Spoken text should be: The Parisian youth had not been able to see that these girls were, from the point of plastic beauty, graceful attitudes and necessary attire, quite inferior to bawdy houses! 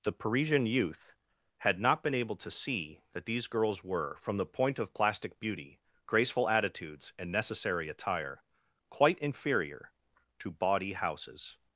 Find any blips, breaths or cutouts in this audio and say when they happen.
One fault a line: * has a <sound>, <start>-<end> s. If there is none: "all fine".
all fine